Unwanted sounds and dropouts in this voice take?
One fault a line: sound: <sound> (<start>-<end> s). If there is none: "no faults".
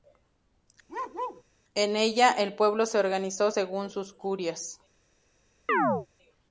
sound: bark (0.9-1.4 s)
sound: chirp (5.7-6.1 s)